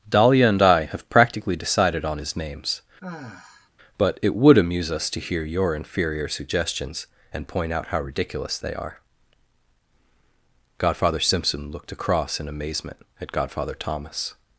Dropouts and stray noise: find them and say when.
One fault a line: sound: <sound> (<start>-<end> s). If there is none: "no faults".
sound: sigh (3.0-3.7 s)